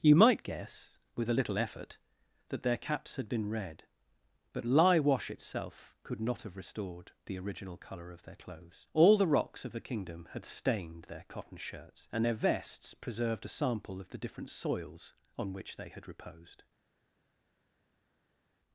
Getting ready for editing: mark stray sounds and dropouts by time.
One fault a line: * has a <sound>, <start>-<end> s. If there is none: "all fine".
all fine